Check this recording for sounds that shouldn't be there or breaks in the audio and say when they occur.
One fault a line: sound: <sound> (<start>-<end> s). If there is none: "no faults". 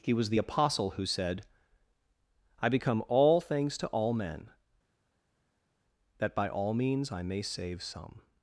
no faults